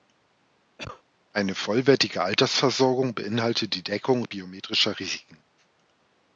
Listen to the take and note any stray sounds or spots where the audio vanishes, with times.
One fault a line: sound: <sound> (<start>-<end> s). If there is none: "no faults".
sound: cough (0.8-1.0 s)